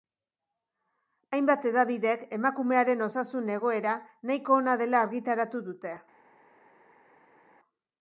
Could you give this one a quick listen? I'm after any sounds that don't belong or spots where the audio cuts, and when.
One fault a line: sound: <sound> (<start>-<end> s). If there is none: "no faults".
no faults